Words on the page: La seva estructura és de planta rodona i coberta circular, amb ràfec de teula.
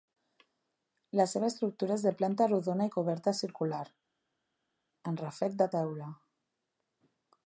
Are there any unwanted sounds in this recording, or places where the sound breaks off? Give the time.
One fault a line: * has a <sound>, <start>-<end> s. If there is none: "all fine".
all fine